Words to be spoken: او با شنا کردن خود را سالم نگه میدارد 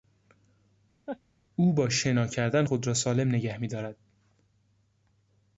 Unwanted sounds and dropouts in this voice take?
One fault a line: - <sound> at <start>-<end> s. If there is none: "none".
- laugh at 1.1-1.2 s